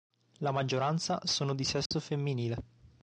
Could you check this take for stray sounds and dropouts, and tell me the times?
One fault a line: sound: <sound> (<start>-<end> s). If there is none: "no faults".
sound: dropout (1.9-1.9 s)